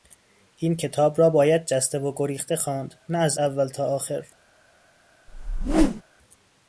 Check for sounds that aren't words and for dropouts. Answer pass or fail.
fail